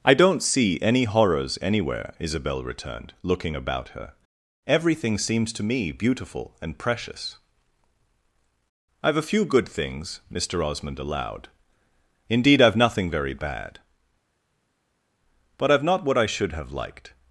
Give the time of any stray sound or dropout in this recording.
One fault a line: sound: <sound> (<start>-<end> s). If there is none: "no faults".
no faults